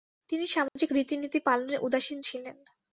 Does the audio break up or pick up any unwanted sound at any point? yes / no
yes